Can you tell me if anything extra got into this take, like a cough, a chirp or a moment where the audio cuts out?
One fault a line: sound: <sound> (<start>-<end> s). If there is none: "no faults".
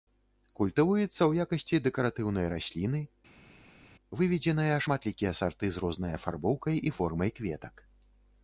no faults